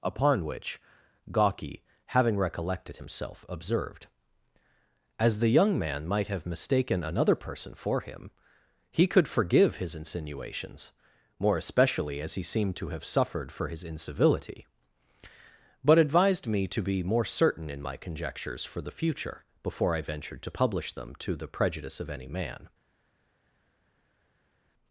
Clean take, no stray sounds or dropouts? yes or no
yes